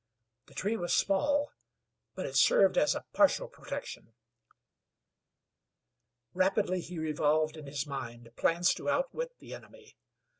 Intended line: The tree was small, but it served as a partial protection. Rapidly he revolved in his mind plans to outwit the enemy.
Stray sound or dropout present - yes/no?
no